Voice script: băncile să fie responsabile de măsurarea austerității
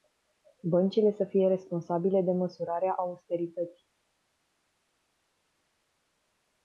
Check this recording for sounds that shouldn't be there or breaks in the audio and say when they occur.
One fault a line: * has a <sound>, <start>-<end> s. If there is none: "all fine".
all fine